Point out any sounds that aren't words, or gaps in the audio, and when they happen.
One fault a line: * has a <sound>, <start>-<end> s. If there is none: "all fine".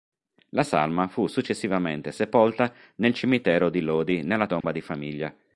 * has a dropout, 4.6-4.6 s